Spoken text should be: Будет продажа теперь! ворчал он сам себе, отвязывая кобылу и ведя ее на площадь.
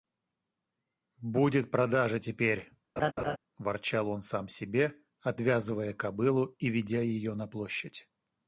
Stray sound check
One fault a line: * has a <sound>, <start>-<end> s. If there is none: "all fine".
* has a laugh, 3.0-3.4 s